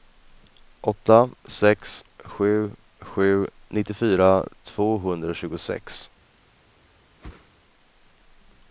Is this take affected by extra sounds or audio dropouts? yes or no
yes